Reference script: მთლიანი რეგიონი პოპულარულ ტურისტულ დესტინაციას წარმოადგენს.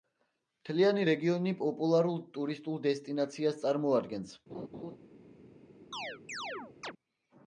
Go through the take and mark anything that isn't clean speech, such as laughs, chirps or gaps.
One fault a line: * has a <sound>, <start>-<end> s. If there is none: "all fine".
* has a laugh, 4.5-5.0 s
* has a chirp, 5.9-6.9 s